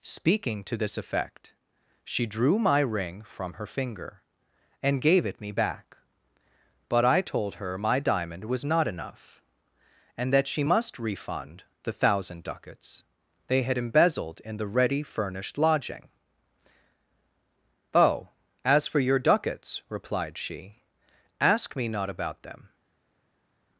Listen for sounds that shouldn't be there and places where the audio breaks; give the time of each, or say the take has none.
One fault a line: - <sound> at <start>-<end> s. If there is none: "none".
none